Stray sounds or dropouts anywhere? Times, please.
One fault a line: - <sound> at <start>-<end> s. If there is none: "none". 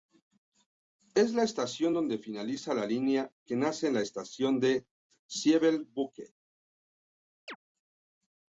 - chirp at 7.5-7.6 s